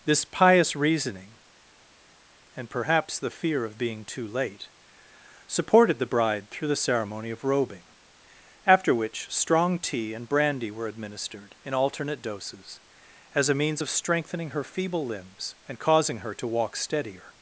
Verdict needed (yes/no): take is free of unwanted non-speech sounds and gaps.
yes